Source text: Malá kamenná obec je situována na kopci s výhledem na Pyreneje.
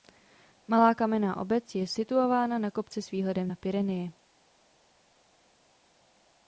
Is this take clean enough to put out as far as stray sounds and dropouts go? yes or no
yes